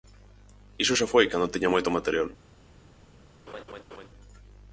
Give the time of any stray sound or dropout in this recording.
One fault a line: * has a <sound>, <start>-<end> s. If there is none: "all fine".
* has a laugh, 3.5-4.1 s